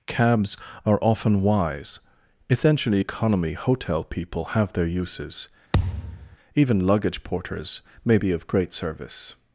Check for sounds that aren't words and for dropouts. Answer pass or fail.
fail